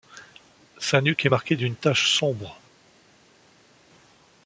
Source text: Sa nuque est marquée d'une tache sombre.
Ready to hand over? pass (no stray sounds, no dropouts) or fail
pass